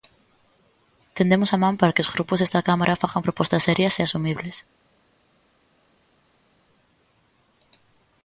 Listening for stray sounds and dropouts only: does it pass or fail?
pass